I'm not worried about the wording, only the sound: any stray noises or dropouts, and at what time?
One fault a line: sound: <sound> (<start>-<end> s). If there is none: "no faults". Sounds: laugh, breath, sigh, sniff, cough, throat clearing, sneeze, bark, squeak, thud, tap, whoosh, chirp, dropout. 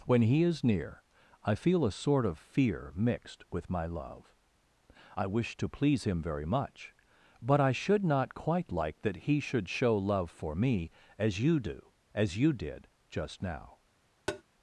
sound: tap (14.3-14.4 s)